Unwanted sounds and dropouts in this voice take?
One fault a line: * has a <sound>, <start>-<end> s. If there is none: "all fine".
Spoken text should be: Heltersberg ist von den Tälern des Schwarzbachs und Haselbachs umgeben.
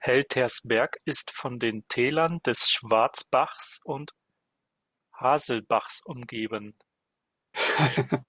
* has a laugh, 7.5-8.2 s